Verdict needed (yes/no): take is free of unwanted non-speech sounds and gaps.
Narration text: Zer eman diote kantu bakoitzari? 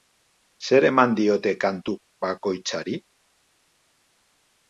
yes